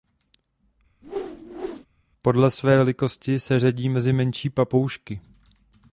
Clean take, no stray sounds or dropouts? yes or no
no